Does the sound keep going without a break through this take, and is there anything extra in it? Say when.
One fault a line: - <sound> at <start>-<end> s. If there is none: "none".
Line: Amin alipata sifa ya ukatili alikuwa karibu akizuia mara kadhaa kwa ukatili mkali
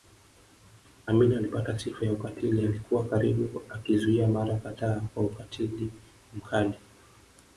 none